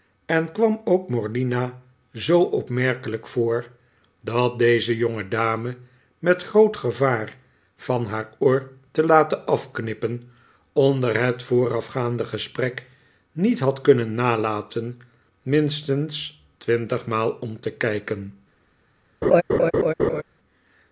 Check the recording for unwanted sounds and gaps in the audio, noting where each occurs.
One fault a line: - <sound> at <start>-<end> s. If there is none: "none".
- laugh at 19.2-20.2 s